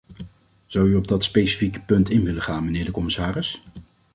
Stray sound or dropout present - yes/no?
no